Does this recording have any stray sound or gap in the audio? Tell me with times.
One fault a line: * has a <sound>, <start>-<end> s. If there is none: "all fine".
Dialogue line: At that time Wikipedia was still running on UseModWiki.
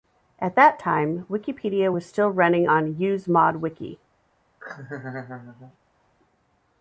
* has a laugh, 4.6-5.8 s